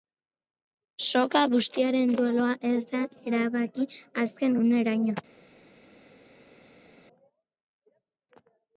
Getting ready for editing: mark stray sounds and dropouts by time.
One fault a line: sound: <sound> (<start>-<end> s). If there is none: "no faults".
no faults